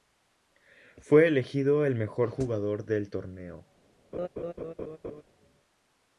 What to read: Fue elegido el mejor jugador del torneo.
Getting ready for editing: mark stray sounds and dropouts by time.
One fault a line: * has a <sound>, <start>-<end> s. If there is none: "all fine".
* has a laugh, 4.1-5.2 s